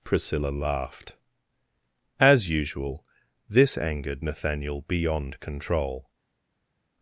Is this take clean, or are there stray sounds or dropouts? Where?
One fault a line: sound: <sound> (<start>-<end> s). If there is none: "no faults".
no faults